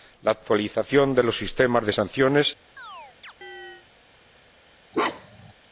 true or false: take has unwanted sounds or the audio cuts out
true